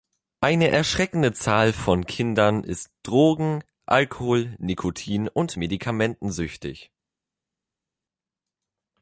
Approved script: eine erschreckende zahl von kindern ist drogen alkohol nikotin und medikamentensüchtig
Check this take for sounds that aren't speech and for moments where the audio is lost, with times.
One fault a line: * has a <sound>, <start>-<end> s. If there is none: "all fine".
all fine